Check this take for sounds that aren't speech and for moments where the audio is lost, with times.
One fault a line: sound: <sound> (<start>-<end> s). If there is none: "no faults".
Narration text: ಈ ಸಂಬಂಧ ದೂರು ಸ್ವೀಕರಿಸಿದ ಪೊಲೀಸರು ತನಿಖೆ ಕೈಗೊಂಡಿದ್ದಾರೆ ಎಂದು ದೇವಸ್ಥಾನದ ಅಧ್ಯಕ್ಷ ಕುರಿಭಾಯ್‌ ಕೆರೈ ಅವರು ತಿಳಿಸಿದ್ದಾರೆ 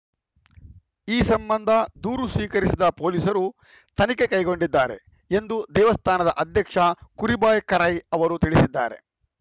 no faults